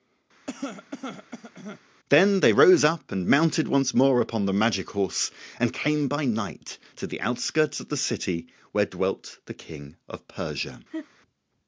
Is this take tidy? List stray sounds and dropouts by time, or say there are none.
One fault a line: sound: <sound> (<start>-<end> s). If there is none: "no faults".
sound: cough (0.5-1.8 s)
sound: laugh (10.9-11.1 s)